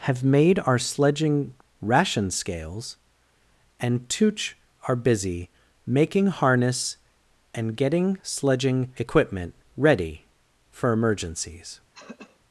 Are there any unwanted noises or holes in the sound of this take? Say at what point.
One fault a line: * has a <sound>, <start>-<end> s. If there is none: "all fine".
* has a throat clearing, 11.9-12.4 s